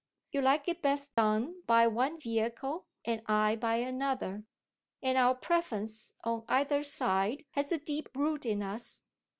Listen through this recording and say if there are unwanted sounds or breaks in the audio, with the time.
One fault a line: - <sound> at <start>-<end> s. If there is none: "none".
- dropout at 1.1-1.2 s